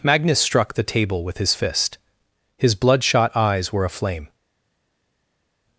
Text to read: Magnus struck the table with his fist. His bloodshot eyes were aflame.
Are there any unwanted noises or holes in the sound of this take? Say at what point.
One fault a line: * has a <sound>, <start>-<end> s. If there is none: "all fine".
all fine